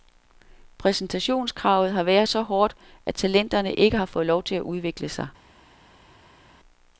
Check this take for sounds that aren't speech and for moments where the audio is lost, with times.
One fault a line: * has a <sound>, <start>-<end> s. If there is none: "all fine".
all fine